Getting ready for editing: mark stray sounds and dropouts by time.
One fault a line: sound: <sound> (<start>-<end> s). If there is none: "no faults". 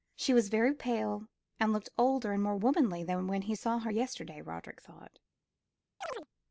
sound: chirp (6.0-6.3 s)